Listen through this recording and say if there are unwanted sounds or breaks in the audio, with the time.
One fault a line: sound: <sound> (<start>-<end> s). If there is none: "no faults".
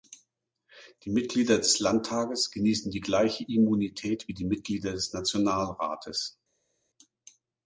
no faults